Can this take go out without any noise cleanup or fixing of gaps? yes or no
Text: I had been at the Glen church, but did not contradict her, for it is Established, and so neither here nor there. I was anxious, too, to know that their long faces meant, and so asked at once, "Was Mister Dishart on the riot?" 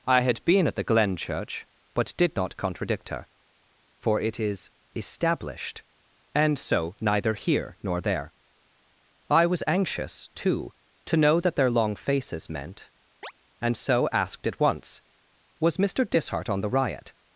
no